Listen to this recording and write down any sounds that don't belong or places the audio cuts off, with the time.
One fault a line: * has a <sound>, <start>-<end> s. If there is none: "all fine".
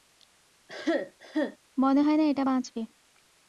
* has a cough, 0.7-1.6 s